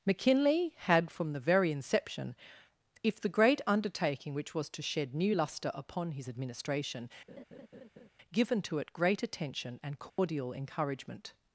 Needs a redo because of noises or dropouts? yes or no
yes